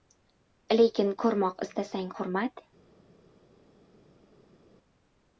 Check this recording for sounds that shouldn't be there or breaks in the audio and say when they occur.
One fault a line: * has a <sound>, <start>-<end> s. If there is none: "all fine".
all fine